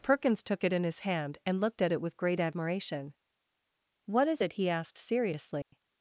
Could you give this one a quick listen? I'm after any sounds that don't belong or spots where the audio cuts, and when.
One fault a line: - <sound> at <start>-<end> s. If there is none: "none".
- dropout at 5.6-5.7 s